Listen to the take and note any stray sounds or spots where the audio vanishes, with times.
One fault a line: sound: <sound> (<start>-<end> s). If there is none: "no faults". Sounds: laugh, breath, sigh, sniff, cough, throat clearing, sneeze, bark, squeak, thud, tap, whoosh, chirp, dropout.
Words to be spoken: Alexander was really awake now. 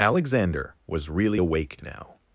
no faults